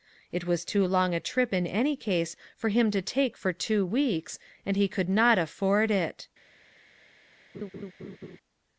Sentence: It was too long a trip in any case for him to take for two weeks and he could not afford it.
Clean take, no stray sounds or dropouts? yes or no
no